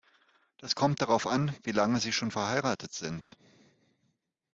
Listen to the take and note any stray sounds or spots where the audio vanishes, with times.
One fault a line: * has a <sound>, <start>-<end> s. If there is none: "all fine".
* has a dropout, 3.2-3.3 s